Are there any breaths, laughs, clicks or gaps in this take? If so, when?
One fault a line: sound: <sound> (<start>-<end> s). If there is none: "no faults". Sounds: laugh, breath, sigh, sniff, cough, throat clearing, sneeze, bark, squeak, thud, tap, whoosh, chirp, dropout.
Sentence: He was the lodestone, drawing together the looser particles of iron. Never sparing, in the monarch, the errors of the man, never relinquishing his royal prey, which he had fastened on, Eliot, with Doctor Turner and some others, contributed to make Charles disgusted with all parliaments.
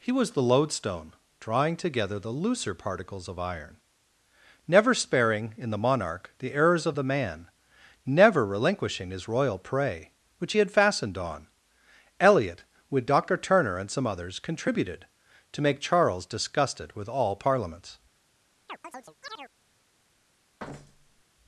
sound: chirp (18.7-19.5 s)
sound: thud (20.6-21.2 s)